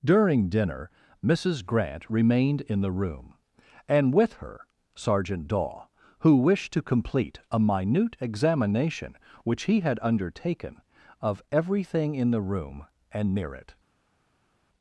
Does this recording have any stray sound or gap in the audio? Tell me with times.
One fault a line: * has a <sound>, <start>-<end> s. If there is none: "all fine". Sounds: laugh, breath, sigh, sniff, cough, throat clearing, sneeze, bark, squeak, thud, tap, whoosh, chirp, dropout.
all fine